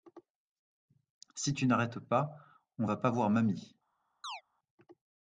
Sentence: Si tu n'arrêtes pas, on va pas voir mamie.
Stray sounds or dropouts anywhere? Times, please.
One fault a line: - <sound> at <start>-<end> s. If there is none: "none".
- chirp at 4.2-4.4 s